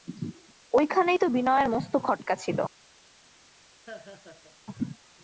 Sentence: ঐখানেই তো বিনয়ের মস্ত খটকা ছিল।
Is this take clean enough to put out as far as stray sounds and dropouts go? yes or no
no